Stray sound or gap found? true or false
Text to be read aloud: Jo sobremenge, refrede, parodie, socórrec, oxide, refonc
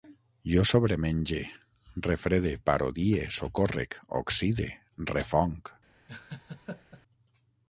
true